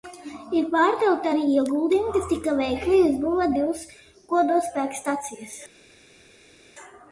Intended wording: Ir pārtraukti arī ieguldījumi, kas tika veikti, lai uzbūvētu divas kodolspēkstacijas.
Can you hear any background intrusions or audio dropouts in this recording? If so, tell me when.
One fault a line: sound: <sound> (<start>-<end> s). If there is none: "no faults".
no faults